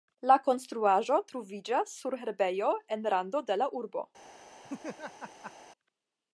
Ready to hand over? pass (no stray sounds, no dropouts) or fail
fail